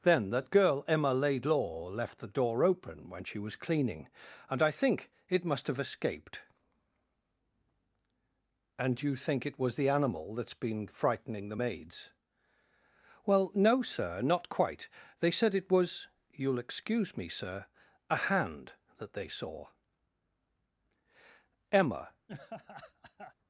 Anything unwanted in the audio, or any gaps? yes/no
yes